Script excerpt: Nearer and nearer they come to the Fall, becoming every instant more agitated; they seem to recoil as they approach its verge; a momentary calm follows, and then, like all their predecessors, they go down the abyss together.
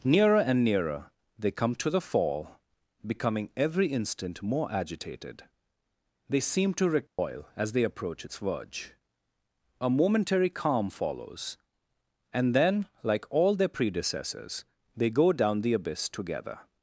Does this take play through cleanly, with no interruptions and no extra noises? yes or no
no